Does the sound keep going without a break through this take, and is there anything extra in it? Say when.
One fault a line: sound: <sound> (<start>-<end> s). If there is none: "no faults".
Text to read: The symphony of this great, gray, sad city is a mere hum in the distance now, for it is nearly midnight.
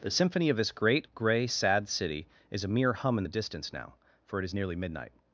no faults